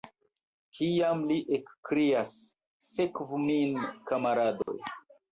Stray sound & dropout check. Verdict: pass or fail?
fail